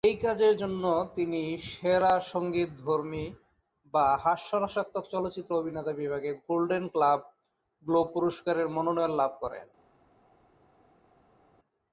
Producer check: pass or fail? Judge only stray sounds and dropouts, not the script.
pass